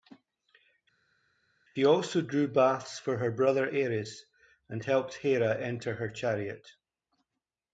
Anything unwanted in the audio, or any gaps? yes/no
no